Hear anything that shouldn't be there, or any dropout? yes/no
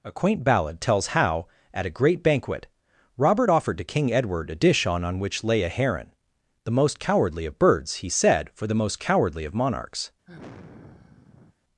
yes